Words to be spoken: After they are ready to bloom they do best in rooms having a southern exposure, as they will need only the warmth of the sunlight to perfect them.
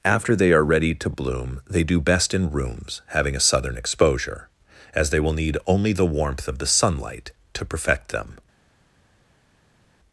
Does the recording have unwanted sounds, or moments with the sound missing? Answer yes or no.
no